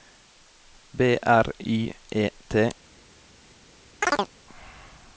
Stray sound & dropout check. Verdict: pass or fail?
fail